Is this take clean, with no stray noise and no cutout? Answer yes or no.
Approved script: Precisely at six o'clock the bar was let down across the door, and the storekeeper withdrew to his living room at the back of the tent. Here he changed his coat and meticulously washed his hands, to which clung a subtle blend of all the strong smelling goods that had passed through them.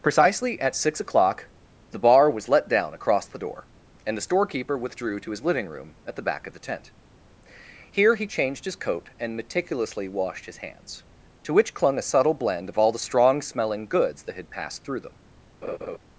no